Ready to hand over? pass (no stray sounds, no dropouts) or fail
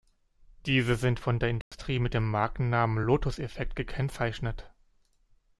fail